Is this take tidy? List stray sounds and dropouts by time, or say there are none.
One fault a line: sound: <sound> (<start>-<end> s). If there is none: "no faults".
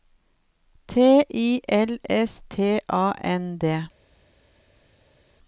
no faults